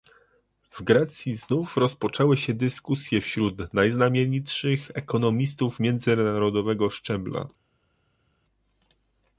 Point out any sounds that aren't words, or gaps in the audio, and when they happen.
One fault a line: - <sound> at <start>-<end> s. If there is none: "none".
none